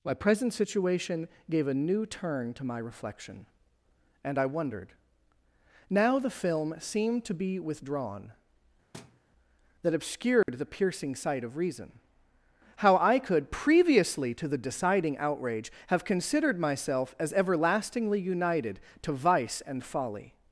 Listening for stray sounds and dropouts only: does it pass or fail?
fail